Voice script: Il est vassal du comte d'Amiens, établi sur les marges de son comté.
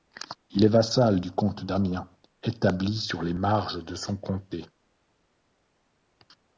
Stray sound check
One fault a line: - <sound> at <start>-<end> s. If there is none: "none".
none